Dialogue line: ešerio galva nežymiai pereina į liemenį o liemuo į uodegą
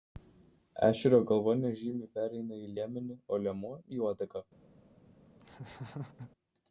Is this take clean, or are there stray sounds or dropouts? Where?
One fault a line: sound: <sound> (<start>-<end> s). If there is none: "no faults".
sound: laugh (5.4-6.3 s)